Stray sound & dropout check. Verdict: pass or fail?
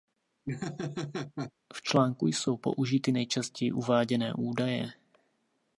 fail